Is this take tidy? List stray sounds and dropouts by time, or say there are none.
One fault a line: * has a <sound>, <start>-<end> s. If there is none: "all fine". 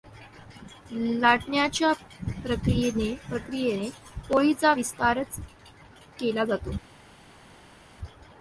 all fine